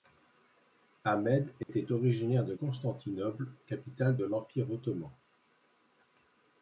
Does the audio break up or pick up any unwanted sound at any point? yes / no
yes